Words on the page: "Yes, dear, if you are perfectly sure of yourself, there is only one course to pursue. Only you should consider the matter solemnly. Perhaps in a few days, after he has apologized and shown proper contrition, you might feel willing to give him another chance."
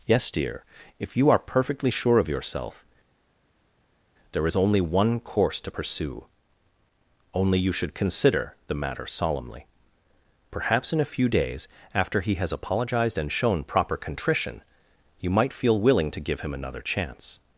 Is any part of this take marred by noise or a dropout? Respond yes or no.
no